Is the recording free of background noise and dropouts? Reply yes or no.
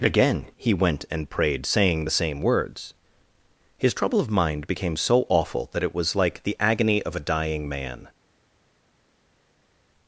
yes